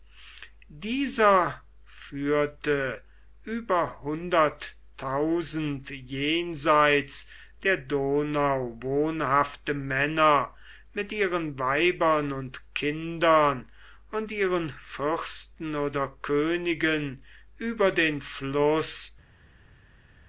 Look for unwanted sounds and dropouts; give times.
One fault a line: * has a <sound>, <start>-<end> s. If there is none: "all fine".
all fine